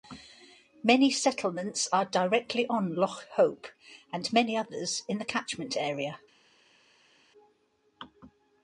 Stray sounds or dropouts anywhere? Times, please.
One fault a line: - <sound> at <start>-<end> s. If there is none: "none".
none